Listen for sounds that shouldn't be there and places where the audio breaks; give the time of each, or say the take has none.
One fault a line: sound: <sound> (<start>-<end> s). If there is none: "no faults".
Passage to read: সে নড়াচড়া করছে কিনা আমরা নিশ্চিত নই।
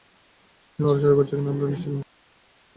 no faults